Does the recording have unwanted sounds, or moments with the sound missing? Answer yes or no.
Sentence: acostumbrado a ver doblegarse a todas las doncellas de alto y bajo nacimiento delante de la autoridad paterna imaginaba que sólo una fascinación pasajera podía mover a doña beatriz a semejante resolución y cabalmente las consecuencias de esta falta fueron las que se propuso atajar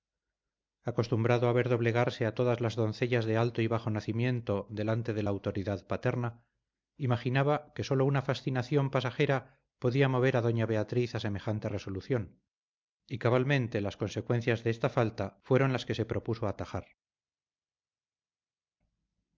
no